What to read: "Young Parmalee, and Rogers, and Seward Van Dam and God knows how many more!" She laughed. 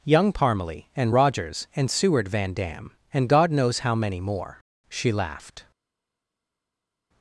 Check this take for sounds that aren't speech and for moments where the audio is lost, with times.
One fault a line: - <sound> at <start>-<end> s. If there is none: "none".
none